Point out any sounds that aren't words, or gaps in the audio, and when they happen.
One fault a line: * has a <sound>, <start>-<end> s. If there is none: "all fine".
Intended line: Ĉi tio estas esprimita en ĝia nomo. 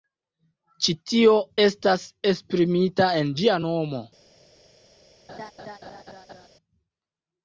* has a laugh, 5.3-6.5 s